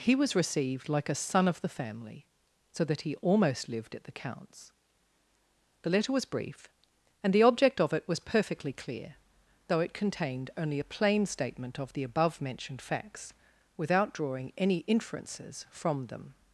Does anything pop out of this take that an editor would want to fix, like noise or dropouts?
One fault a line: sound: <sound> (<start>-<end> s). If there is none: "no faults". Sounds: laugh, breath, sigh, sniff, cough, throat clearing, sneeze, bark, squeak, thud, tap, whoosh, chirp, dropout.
no faults